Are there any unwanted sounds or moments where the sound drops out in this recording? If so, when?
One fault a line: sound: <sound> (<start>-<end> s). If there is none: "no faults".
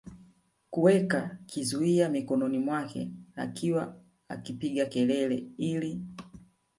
no faults